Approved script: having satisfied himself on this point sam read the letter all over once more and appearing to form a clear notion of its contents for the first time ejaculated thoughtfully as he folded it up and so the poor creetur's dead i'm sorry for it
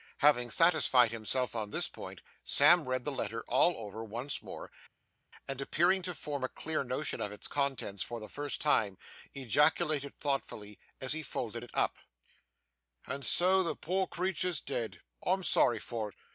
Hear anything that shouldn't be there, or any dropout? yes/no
no